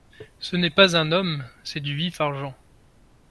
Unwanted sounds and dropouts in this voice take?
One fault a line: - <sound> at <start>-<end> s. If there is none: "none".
none